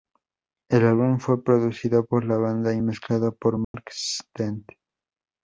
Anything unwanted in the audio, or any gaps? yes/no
yes